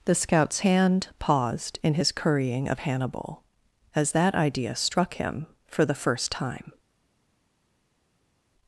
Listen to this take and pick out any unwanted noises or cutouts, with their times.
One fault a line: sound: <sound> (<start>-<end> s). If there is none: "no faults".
no faults